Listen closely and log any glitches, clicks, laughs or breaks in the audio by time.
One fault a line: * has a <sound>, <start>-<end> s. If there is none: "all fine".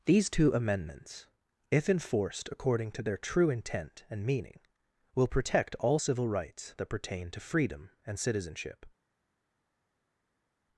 all fine